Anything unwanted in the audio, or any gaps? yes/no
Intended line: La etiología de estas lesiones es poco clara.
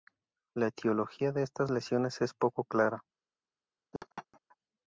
yes